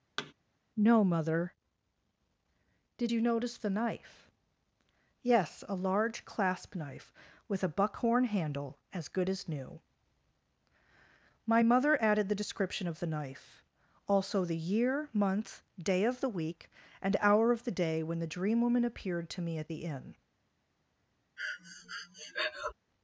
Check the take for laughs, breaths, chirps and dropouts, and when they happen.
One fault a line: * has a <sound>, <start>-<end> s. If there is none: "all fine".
* has a thud, 0.2-0.3 s
* has a breath, 21.4-22.7 s